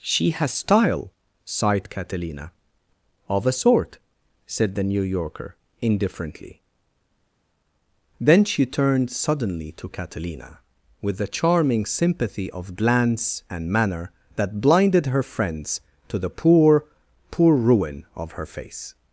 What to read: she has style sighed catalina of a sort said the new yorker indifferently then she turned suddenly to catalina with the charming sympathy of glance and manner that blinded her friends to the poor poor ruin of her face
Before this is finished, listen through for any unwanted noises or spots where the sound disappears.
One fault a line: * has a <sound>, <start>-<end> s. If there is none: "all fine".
all fine